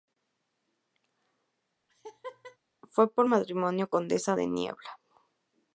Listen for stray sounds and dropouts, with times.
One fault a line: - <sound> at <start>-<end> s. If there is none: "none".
- laugh at 1.9-2.6 s